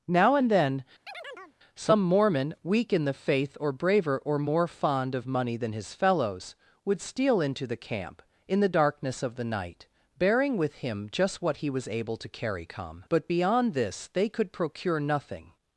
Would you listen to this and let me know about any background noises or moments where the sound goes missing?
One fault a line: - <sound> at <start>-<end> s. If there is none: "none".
- chirp at 1.1-1.6 s